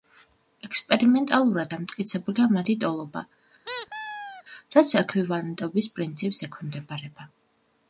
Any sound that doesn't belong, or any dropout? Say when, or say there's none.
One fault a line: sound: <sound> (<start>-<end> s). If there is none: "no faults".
sound: squeak (3.6-4.4 s)